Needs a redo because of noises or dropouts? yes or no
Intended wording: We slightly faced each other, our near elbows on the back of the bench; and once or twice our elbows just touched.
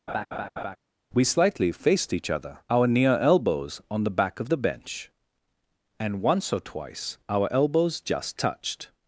yes